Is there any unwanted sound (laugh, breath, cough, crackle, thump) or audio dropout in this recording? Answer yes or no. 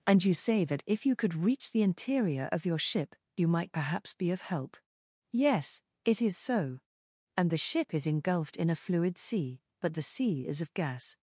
no